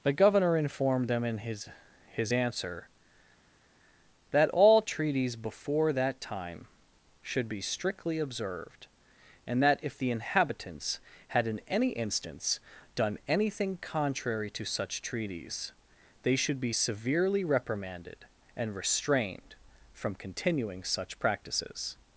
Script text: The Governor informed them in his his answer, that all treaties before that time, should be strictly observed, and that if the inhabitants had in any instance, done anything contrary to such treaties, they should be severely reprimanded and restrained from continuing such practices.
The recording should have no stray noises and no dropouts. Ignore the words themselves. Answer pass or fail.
pass